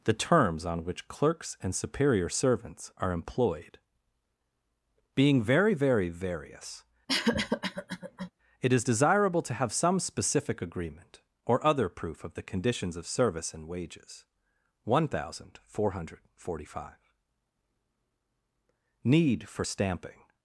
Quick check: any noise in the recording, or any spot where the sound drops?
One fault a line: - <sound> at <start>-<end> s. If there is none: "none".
- cough at 7.1-8.3 s